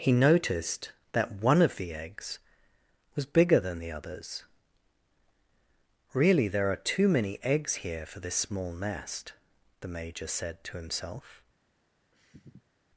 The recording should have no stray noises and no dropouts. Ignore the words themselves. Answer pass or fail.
fail